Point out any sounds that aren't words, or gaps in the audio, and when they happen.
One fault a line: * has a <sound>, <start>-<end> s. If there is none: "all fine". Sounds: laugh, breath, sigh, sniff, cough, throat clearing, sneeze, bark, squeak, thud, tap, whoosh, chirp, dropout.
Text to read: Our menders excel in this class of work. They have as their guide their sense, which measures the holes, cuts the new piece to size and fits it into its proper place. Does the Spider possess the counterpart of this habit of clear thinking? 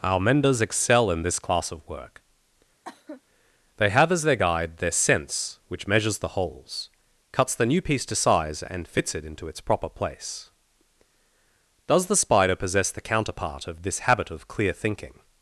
* has a cough, 2.8-3.2 s